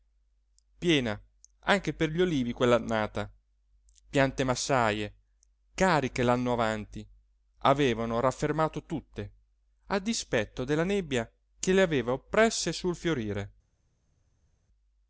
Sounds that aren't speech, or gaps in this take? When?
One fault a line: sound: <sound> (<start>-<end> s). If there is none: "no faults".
no faults